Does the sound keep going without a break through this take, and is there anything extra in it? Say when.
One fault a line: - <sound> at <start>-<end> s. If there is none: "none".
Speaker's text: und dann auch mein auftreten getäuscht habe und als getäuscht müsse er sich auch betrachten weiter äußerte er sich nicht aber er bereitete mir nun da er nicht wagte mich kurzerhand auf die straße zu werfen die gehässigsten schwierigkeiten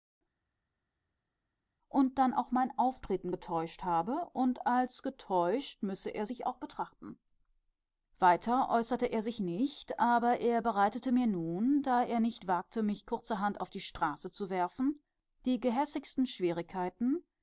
none